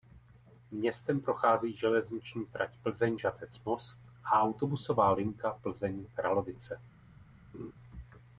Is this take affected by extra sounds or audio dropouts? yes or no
yes